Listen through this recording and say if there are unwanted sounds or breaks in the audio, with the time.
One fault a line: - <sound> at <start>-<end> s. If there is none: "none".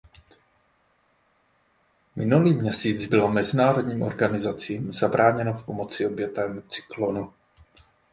none